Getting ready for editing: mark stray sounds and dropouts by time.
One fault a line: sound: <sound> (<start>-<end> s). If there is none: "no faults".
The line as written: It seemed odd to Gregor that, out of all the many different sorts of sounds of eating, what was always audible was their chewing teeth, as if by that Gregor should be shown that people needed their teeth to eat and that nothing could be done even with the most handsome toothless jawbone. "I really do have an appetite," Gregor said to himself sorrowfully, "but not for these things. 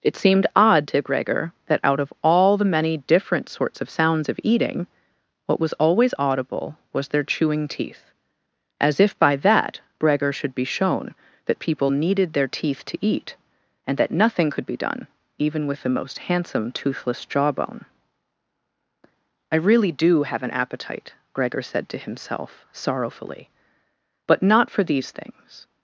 no faults